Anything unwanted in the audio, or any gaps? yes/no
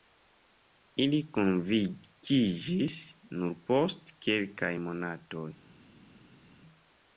no